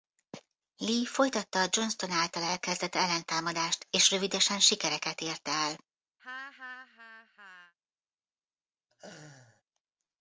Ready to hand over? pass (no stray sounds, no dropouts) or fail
fail